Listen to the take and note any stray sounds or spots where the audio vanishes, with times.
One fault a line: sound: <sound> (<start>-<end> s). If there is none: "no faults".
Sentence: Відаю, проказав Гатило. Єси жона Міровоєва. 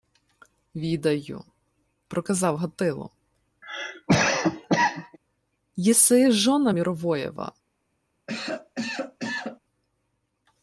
sound: cough (3.6-5.2 s)
sound: cough (8.3-9.6 s)